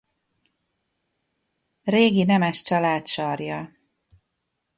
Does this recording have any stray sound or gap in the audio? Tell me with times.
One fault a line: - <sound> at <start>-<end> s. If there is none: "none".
none